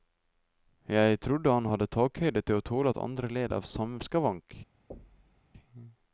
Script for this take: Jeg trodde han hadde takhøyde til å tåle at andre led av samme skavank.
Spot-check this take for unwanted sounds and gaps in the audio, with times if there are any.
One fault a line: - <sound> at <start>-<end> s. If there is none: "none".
- thud at 4.9-5.4 s